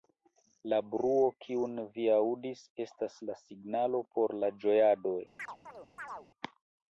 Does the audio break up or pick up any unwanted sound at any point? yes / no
yes